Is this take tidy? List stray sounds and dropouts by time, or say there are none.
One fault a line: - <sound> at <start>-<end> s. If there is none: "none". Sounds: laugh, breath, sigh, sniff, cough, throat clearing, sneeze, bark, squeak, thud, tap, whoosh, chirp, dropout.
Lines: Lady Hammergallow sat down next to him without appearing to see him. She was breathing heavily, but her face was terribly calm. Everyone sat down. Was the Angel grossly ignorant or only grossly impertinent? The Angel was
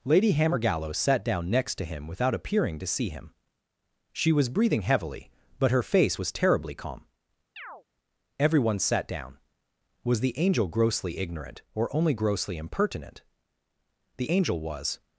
- chirp at 7.6-7.8 s